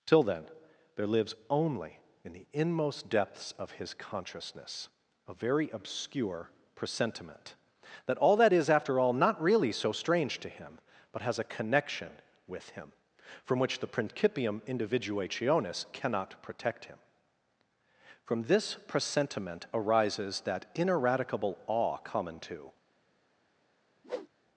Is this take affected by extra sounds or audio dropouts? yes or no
yes